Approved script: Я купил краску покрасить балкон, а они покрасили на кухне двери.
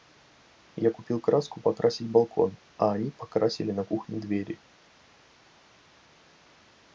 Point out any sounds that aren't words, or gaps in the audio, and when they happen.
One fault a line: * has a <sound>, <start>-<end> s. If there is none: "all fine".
all fine